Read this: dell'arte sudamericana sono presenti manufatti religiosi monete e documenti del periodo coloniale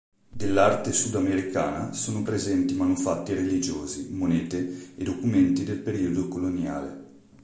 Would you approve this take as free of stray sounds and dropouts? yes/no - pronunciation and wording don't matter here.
yes